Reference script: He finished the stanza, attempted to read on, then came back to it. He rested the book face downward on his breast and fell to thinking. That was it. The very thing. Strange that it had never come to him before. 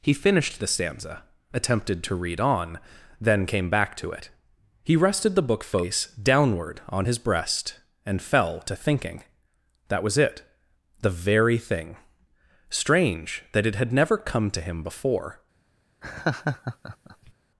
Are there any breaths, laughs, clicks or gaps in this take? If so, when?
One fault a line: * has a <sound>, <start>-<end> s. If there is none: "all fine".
* has a laugh, 16.0-17.3 s